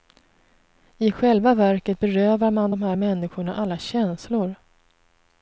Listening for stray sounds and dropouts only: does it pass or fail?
pass